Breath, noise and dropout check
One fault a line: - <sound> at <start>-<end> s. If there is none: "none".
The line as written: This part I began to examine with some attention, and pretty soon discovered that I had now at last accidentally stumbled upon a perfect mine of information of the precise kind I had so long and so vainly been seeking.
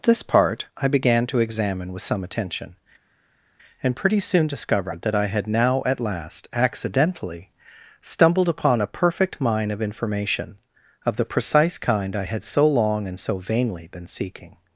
none